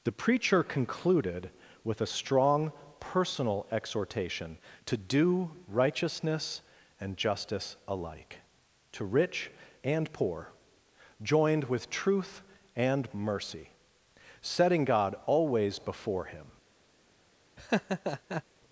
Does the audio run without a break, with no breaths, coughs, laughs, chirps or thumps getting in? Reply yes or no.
no